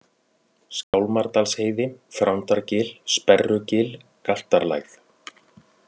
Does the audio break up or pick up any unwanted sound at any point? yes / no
yes